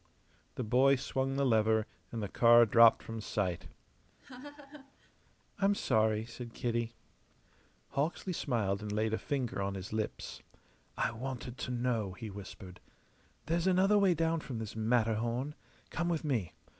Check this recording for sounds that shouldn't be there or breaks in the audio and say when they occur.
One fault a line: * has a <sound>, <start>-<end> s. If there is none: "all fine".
* has a laugh, 4.2-5.1 s